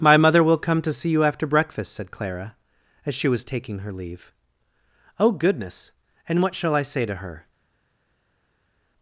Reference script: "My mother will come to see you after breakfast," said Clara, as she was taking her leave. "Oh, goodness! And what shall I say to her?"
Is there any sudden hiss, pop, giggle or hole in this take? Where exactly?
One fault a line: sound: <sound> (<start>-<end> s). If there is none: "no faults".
no faults